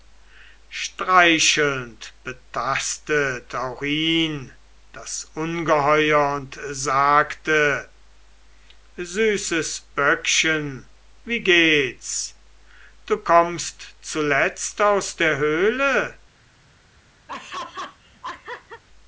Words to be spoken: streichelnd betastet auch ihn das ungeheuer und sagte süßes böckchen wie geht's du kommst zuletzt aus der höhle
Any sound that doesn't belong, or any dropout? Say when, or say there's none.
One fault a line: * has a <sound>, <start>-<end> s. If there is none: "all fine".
* has a laugh, 17.3-18.8 s